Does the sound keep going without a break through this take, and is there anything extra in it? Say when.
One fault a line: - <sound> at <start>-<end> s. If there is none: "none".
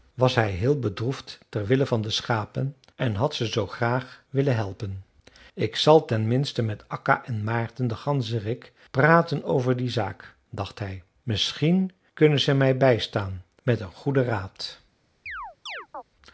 - chirp at 15.3-16.0 s